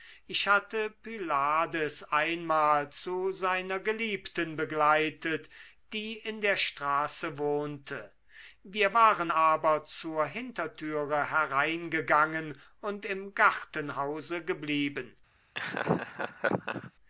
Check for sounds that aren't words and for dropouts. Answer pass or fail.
fail